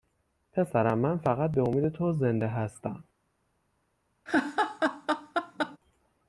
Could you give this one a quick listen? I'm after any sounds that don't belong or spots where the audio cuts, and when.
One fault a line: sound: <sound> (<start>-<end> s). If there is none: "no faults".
sound: laugh (4.3-5.8 s)